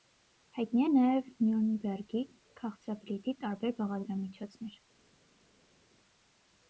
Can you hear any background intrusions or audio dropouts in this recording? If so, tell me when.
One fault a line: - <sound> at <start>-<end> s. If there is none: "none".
none